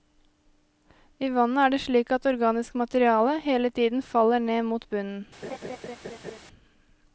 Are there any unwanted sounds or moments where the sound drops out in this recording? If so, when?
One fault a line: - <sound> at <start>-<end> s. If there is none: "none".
- laugh at 5.4-6.4 s